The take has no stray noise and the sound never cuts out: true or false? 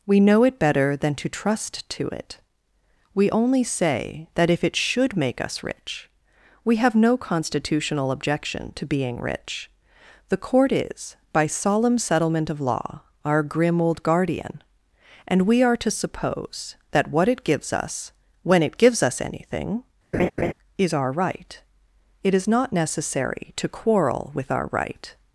false